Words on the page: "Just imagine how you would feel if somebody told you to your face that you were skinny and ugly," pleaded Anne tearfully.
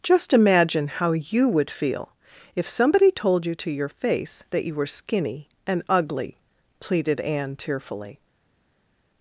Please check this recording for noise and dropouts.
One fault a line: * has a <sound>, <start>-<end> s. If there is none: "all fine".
all fine